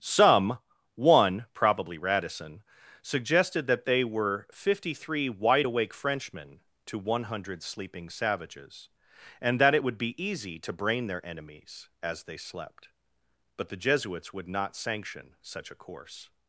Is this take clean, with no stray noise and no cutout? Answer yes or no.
yes